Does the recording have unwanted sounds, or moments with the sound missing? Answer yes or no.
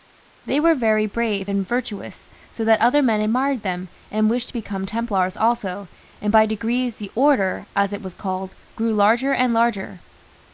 no